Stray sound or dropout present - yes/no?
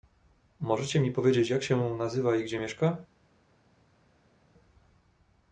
no